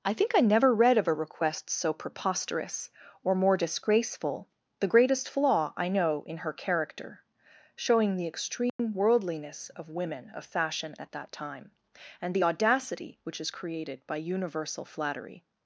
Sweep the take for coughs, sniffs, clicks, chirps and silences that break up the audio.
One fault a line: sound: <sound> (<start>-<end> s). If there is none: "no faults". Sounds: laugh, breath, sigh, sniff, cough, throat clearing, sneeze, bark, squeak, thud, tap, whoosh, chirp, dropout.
sound: dropout (8.7-8.8 s)